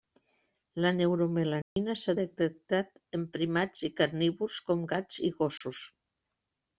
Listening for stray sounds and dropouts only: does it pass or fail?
fail